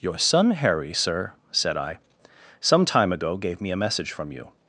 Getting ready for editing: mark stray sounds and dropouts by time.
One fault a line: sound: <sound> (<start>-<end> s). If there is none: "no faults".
no faults